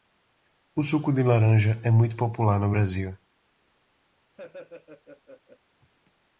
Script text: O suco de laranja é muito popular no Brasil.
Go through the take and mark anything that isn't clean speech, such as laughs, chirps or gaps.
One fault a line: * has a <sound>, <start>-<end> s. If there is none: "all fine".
* has a laugh, 4.4-5.6 s